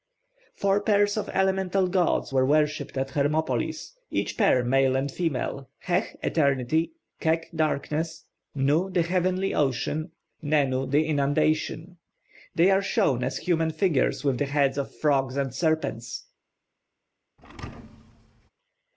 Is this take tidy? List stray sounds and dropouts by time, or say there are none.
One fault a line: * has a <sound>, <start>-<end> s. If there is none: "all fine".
* has a thud, 17.4-18.5 s